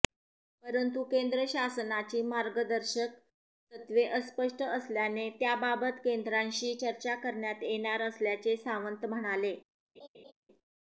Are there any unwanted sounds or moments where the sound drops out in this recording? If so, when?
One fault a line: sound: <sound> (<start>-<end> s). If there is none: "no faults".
sound: laugh (10.0-10.3 s)